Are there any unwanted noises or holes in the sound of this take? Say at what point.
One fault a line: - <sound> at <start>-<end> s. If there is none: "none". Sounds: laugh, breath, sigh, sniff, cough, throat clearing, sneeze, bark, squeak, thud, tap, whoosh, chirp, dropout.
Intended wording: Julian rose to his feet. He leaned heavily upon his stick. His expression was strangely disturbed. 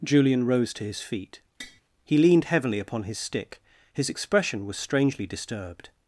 - tap at 1.6-1.8 s